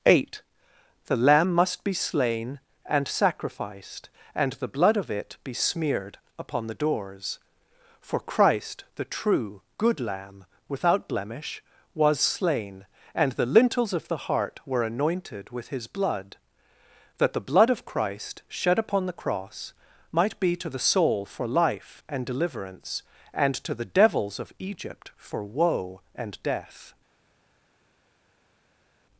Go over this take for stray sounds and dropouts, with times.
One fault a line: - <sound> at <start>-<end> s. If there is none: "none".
none